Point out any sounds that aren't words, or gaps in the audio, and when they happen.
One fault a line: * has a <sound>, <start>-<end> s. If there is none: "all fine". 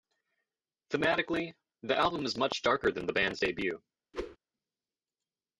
* has a whoosh, 4.1-4.4 s